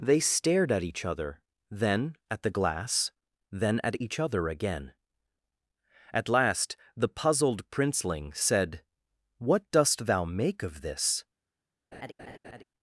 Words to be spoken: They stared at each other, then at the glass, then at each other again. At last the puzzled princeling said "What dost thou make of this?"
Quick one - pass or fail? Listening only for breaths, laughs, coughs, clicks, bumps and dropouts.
fail